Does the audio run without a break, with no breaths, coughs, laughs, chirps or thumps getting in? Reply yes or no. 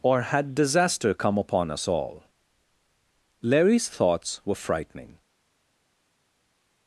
yes